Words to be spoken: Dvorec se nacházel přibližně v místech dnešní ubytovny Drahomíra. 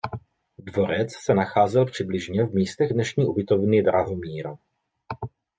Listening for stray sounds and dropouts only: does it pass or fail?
pass